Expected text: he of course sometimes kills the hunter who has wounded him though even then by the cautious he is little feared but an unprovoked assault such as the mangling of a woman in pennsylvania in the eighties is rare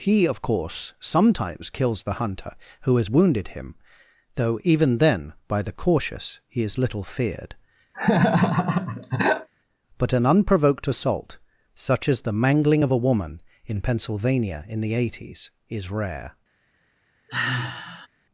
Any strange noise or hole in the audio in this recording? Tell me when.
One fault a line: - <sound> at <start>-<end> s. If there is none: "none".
- laugh at 7.9-9.5 s
- sigh at 17.3-18.1 s